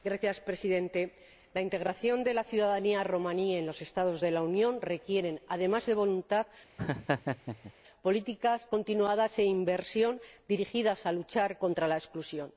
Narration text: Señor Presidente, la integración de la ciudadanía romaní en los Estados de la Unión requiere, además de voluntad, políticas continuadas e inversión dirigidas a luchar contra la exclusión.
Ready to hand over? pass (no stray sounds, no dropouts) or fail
fail